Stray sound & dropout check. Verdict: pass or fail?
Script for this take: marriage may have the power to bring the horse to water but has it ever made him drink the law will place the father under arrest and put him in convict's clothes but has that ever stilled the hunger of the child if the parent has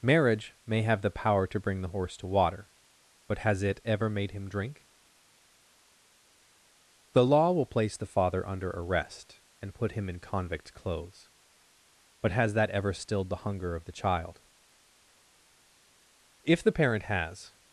pass